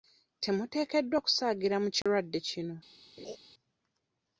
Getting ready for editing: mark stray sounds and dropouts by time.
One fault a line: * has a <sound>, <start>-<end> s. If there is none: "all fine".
* has a dropout, 2.0-2.1 s
* has a laugh, 3.2-3.4 s